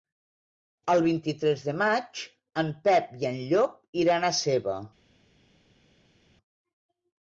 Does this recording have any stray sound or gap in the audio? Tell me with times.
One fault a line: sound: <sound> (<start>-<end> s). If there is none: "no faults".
no faults